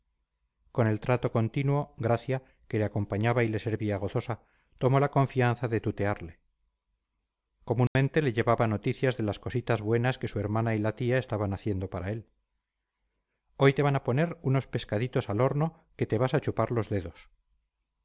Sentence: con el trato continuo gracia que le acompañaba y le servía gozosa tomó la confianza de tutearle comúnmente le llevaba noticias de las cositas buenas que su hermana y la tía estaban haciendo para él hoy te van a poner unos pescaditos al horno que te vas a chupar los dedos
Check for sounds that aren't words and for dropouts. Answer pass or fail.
fail